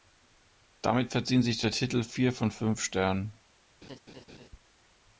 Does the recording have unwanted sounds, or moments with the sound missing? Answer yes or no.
yes